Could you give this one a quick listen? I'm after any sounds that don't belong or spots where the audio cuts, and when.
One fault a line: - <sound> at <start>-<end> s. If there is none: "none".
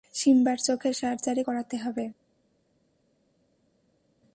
none